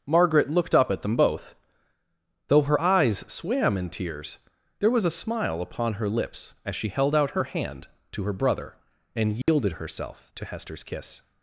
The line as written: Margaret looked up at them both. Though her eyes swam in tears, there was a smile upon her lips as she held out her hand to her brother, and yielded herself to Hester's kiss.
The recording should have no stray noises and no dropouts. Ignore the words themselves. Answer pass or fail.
fail